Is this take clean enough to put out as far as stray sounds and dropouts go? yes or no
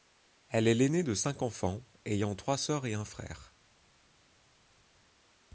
yes